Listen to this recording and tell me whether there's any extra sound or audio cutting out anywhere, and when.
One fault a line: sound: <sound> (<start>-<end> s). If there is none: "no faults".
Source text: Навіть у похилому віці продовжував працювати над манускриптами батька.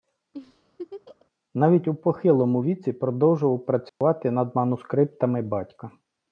sound: laugh (0.3-1.3 s)
sound: dropout (3.9-4.0 s)